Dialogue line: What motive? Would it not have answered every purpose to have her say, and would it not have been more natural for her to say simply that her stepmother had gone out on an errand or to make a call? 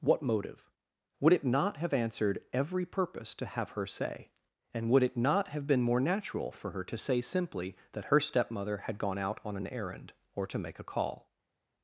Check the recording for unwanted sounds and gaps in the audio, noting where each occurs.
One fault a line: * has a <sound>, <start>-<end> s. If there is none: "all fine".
all fine